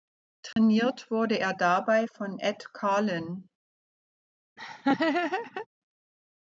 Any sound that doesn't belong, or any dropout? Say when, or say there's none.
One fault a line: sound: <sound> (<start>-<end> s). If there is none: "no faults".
sound: dropout (0.5-0.6 s)
sound: laugh (4.6-5.7 s)